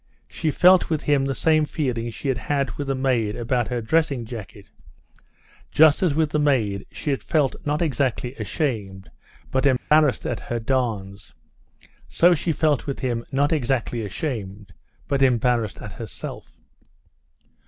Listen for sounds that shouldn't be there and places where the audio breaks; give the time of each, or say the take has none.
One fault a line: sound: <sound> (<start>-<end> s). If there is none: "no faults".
sound: dropout (9.8-9.9 s)